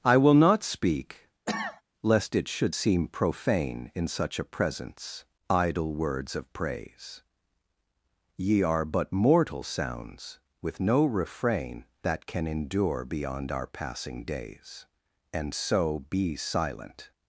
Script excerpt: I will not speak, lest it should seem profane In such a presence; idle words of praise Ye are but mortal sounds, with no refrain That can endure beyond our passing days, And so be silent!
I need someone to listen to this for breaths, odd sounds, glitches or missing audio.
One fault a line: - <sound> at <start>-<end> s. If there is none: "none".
- cough at 1.5-1.8 s